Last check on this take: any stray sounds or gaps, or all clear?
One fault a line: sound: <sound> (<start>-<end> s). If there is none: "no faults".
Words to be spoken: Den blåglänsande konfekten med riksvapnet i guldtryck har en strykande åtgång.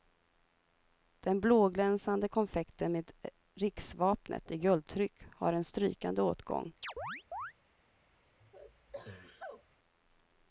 sound: chirp (6.8-7.5 s)
sound: sneeze (8.4-9.6 s)